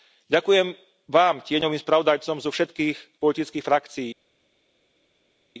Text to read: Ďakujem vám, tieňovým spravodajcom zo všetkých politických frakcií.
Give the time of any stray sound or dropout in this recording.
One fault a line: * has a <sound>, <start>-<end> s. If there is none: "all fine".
all fine